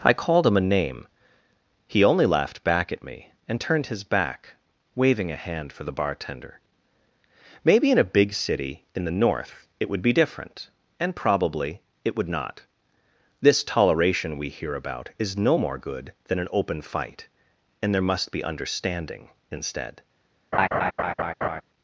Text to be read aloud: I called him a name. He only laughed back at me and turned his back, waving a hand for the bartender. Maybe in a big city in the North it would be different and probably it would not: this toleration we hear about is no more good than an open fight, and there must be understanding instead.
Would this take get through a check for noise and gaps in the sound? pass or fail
fail